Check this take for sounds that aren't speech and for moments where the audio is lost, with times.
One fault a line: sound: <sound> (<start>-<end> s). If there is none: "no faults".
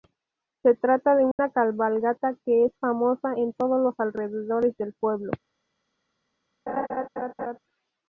sound: dropout (1.3-1.4 s)
sound: laugh (6.7-7.6 s)